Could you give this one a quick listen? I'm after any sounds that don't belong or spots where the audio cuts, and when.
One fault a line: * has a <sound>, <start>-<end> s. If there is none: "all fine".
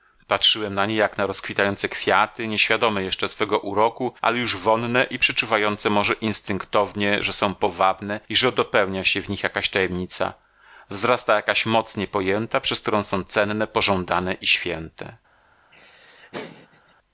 * has a laugh, 15.7-16.9 s